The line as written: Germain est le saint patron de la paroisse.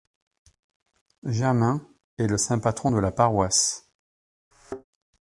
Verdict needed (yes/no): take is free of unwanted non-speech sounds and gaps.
no